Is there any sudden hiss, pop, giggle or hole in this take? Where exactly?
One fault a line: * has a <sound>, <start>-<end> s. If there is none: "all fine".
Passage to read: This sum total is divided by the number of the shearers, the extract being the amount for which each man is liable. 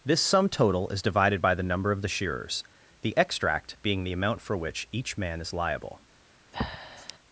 * has a breath, 6.5-7.2 s